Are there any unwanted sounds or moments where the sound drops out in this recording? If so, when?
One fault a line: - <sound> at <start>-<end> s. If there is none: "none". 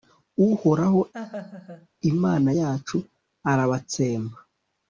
- laugh at 1.1-1.9 s